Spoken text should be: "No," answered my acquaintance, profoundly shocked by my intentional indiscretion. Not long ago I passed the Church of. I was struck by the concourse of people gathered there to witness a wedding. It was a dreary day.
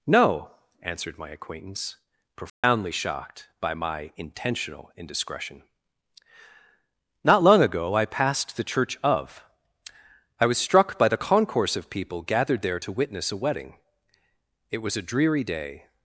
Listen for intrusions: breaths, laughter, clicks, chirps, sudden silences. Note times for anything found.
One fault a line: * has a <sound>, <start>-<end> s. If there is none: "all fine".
* has a dropout, 2.5-2.6 s